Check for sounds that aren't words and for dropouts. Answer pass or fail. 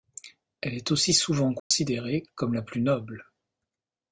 fail